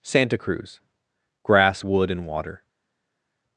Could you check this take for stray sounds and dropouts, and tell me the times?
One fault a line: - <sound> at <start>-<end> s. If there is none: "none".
none